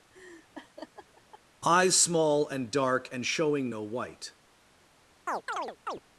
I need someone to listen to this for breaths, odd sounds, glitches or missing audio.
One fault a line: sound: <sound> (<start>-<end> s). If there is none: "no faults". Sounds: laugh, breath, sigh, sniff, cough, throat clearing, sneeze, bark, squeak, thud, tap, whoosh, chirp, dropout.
sound: laugh (0.1-1.4 s)
sound: chirp (5.3-6.0 s)